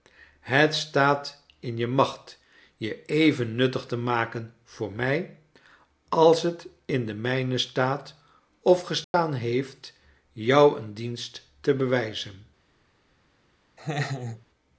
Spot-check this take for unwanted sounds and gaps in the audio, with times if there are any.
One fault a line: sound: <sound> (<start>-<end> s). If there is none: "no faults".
sound: dropout (9.0-9.1 s)
sound: laugh (13.8-14.5 s)